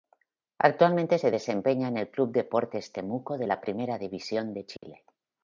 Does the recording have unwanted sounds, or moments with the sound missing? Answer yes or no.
yes